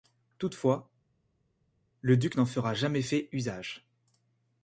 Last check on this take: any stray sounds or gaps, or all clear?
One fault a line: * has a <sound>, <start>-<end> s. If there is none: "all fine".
all fine